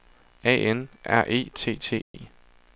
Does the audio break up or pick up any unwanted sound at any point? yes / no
yes